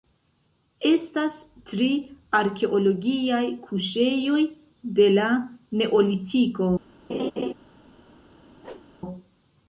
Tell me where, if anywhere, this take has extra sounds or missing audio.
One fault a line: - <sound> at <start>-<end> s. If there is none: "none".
- laugh at 7.1-7.5 s
- whoosh at 8.6-8.9 s